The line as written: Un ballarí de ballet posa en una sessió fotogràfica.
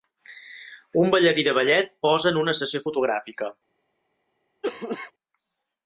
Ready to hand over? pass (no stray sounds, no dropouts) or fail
fail